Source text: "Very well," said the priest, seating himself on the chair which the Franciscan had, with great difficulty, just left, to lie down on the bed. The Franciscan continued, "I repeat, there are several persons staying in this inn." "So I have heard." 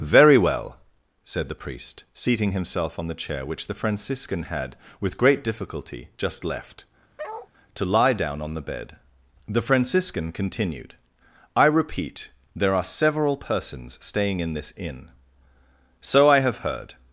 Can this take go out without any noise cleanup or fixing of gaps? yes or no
no